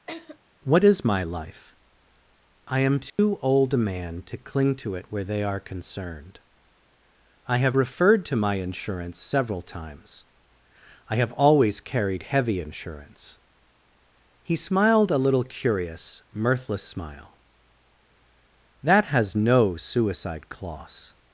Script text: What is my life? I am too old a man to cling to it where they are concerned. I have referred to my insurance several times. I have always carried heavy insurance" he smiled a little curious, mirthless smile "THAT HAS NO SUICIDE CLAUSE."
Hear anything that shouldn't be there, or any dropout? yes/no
yes